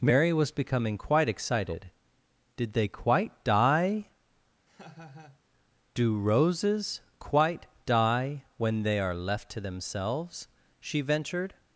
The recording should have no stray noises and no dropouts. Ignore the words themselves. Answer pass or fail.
fail